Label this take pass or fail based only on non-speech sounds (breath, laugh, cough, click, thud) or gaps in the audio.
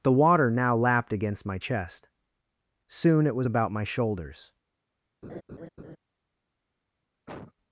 fail